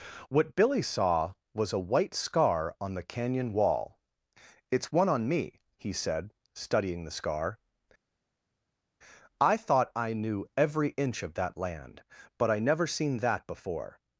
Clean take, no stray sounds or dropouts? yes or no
yes